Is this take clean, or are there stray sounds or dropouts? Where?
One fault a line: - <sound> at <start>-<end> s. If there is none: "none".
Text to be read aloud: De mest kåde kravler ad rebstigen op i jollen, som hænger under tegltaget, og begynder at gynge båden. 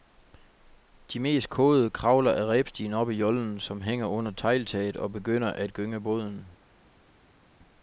none